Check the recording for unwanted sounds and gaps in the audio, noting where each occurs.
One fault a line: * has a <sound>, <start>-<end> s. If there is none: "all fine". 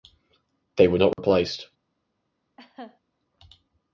* has a dropout, 1.1-1.2 s
* has a laugh, 2.6-3.0 s